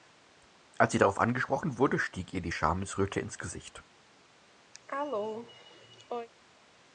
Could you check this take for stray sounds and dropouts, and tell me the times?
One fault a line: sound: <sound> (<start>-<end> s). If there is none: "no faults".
sound: cough (4.7-6.3 s)